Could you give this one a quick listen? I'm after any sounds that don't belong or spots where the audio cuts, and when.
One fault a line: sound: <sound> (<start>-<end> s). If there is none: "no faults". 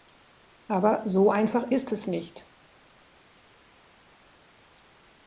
no faults